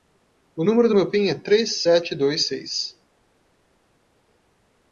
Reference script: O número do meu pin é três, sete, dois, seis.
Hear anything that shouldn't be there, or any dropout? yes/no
no